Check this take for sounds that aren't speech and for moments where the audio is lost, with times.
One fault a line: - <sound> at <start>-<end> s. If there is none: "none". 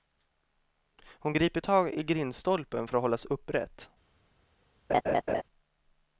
- laugh at 4.9-5.4 s